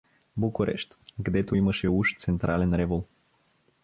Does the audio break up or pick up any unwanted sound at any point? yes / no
no